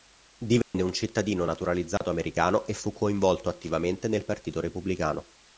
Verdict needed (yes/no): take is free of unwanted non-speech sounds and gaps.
no